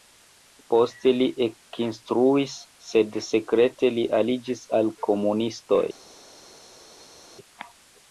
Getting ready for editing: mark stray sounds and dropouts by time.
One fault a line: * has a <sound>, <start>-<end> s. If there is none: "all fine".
all fine